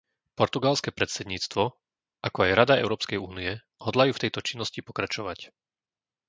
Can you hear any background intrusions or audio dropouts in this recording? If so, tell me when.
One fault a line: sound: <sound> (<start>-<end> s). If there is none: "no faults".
no faults